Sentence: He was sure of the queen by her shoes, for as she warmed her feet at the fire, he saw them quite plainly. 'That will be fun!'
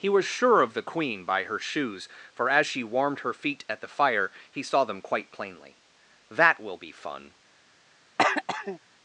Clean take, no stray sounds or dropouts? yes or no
no